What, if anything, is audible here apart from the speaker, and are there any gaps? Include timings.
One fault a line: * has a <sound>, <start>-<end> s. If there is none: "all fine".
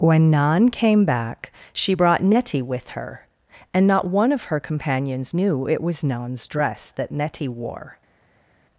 all fine